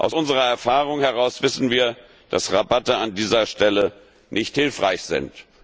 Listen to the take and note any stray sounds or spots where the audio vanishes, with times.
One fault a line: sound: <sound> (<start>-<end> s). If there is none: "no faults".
no faults